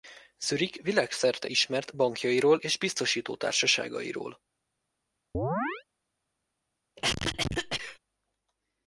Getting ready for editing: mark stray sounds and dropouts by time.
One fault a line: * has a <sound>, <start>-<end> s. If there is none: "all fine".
* has a chirp, 5.3-5.8 s
* has a cough, 7.0-8.0 s